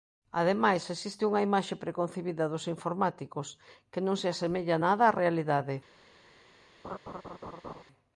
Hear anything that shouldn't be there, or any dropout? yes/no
yes